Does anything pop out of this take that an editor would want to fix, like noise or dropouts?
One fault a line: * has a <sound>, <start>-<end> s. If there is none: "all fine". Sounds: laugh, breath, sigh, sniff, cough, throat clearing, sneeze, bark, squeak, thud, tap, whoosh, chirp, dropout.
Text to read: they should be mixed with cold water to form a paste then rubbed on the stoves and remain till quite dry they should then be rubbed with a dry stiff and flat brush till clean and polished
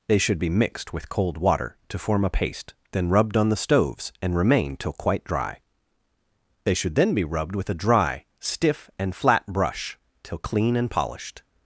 all fine